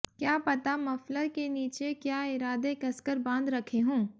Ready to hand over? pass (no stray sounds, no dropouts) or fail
pass